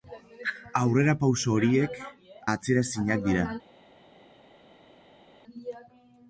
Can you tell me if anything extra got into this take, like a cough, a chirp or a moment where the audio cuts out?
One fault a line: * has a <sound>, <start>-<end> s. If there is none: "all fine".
all fine